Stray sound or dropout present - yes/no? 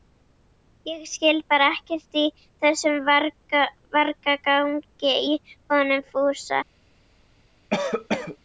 yes